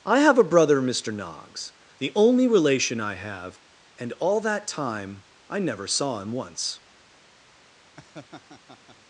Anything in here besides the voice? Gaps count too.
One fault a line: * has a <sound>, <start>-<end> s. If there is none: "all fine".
* has a laugh, 8.0-9.0 s